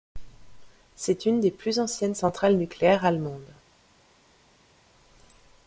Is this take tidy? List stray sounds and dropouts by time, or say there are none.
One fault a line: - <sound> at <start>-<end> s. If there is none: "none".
none